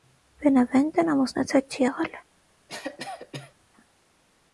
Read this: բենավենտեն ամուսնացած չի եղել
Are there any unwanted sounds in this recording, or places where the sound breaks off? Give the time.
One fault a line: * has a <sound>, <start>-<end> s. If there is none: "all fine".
* has a cough, 2.7-3.5 s